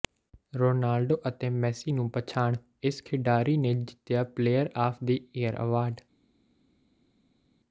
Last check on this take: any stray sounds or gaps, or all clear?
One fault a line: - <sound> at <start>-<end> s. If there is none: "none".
none